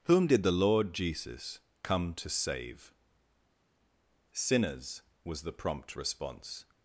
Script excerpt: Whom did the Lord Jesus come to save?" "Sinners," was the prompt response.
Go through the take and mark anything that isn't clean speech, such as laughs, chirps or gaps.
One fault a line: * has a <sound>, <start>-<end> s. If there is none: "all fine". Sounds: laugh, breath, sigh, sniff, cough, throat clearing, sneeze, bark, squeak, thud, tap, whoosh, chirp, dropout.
all fine